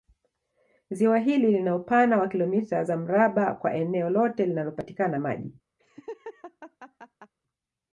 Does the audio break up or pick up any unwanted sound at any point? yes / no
yes